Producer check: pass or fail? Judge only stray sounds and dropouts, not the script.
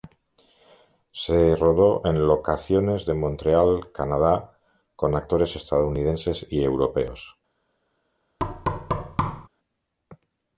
fail